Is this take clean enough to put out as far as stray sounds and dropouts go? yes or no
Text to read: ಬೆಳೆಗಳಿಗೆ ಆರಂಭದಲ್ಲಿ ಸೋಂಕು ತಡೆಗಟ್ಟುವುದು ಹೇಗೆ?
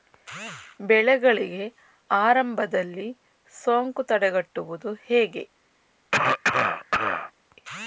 no